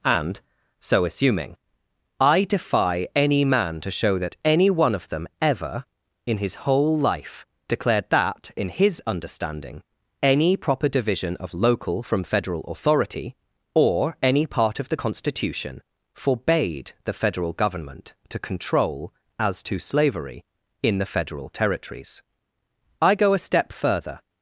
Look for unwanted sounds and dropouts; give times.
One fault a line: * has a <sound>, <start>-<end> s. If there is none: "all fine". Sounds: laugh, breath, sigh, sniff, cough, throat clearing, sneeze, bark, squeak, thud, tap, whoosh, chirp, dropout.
all fine